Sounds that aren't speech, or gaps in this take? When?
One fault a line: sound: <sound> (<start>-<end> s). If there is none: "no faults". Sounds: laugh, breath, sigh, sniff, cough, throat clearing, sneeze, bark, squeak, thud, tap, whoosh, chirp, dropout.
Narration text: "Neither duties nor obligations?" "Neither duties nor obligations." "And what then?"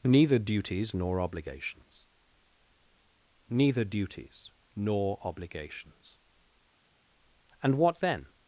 no faults